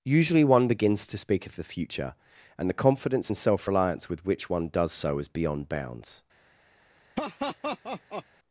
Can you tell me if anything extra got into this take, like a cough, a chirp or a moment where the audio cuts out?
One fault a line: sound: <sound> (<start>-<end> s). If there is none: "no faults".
sound: laugh (7.2-8.3 s)